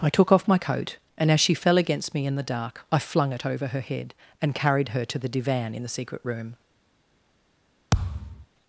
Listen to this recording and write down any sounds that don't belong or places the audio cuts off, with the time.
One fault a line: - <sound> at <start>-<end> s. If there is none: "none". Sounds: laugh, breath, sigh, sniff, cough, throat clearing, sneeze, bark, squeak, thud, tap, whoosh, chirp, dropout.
- thud at 7.9-8.5 s